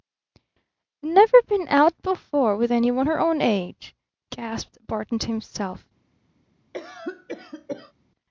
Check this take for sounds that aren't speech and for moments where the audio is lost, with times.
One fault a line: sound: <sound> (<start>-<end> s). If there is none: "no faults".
sound: cough (6.7-7.9 s)